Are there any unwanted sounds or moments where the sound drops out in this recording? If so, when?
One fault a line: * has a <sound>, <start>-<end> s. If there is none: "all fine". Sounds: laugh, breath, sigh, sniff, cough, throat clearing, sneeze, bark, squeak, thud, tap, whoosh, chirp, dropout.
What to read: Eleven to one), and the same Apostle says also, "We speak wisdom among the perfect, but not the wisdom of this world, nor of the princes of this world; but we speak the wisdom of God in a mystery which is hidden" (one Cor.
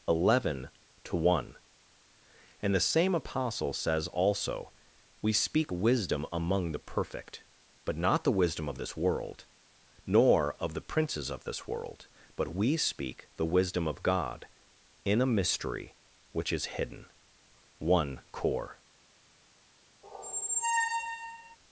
* has a squeak, 20.0-21.6 s